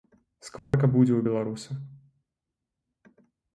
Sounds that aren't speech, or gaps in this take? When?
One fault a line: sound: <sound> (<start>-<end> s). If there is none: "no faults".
sound: dropout (0.6-0.7 s)